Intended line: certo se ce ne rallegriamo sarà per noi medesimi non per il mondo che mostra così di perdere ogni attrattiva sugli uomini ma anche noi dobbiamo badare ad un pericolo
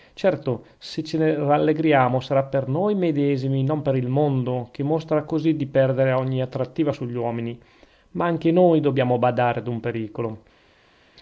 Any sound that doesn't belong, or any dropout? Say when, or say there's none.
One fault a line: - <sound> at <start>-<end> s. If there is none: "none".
none